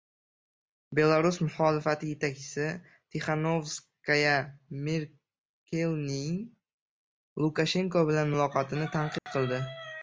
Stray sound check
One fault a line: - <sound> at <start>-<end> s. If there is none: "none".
- dropout at 9.2-9.3 s